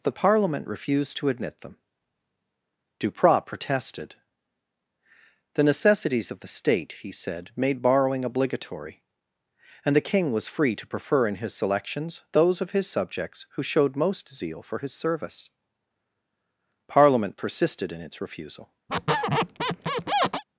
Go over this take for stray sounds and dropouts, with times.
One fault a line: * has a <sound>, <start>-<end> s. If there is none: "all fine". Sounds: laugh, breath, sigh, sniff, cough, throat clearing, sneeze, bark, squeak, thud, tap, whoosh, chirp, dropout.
* has a squeak, 18.9-20.4 s